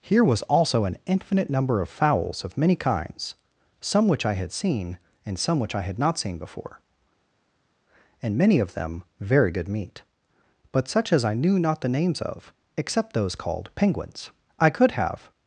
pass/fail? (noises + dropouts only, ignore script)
pass